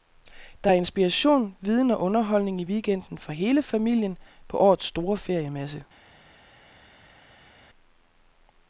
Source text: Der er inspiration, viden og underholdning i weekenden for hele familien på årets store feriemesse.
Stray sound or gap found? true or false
false